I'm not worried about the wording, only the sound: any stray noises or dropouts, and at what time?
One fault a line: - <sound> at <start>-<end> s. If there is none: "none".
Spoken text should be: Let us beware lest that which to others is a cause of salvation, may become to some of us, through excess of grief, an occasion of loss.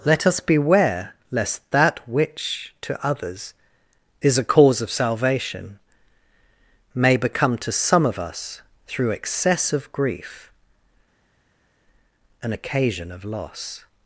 none